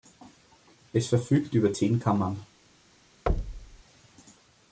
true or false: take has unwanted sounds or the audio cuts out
true